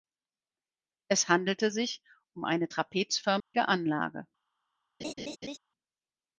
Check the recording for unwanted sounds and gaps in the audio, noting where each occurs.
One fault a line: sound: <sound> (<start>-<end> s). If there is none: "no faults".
sound: dropout (3.4-3.5 s)
sound: laugh (5.0-5.6 s)